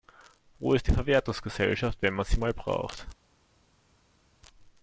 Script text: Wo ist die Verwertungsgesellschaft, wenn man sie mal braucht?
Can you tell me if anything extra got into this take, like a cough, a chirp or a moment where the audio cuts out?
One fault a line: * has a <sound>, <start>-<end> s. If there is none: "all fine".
all fine